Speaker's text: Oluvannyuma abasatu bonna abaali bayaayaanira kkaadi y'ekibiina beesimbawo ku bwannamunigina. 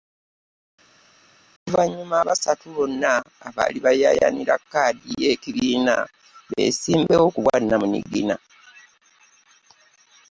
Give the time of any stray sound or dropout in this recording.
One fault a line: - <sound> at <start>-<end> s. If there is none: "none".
none